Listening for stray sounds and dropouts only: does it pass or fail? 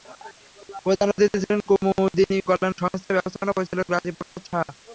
fail